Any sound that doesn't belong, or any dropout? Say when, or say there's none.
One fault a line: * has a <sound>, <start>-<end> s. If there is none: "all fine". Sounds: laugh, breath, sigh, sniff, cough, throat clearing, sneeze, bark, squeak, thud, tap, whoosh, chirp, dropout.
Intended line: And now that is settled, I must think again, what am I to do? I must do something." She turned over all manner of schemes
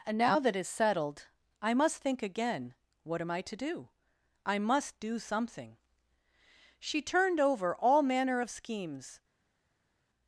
all fine